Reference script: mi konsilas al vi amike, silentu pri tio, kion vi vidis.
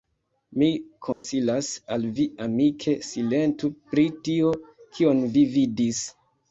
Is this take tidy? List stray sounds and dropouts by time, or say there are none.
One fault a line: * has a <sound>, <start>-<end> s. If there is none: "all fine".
* has a dropout, 1.1-1.2 s